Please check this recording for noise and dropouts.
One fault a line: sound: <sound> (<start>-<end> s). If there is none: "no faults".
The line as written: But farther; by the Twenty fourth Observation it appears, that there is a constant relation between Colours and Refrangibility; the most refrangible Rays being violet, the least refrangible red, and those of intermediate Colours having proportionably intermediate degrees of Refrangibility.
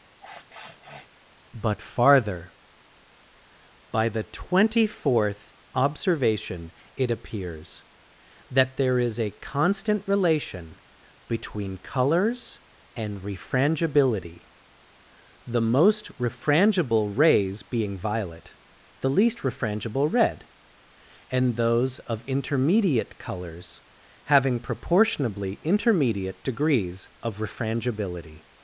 sound: sniff (0.2-1.1 s)